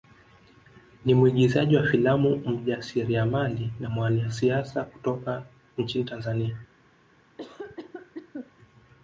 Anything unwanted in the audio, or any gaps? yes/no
yes